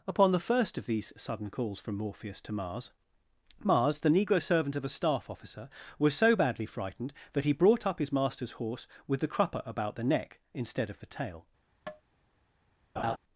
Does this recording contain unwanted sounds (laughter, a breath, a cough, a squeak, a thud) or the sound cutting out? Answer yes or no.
yes